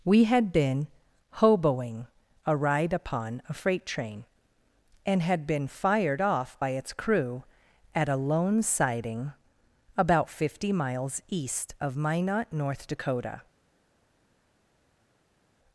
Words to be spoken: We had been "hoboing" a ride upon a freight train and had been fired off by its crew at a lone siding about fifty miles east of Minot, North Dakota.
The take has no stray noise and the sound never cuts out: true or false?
true